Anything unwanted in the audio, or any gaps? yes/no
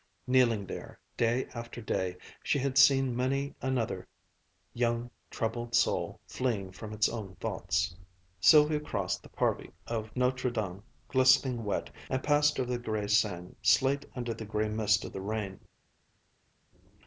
no